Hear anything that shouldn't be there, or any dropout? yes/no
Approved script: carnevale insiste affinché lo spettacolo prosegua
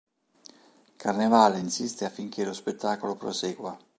no